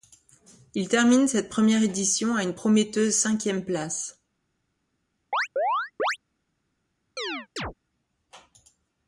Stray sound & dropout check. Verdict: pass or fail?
fail